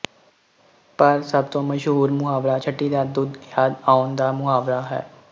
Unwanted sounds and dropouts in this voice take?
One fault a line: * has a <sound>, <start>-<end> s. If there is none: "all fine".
all fine